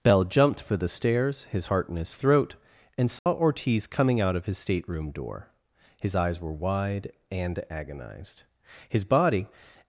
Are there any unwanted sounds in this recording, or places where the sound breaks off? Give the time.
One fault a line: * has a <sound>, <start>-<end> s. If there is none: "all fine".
* has a dropout, 3.2-3.3 s